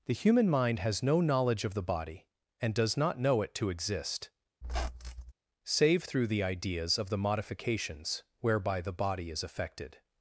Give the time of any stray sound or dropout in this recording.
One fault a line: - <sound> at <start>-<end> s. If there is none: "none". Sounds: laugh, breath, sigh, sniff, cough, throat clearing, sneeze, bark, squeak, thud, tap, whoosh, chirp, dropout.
- squeak at 4.6-5.3 s